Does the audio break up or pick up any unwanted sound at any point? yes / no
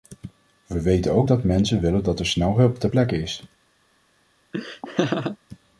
yes